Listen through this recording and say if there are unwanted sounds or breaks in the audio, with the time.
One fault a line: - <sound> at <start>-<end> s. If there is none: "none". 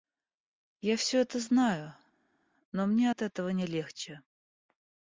none